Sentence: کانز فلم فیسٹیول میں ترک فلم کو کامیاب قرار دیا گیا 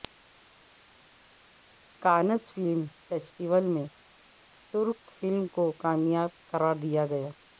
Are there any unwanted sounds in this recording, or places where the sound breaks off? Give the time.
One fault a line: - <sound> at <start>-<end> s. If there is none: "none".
none